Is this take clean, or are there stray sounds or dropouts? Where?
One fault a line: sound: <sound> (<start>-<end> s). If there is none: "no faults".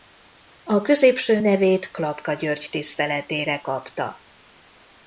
no faults